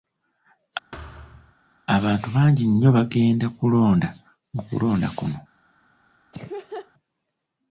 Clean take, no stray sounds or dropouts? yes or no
no